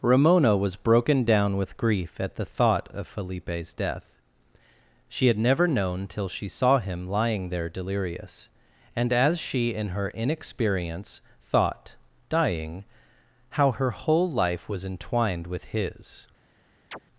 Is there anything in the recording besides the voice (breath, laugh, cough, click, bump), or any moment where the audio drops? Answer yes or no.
yes